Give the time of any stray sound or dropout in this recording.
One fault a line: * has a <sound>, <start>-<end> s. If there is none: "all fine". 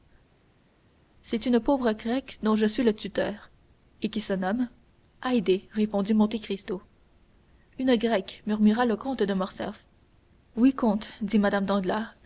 all fine